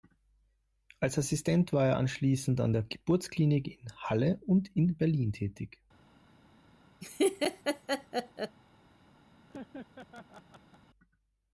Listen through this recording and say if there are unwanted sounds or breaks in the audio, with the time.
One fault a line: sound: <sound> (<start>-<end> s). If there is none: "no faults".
sound: laugh (7.0-8.6 s)
sound: laugh (9.5-10.8 s)